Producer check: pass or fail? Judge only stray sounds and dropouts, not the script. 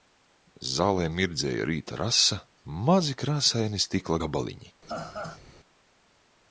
fail